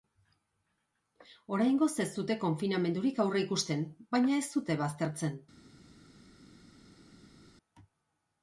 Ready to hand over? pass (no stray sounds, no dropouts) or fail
pass